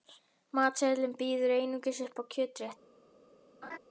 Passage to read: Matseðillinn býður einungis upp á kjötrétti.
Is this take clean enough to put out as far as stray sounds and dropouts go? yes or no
no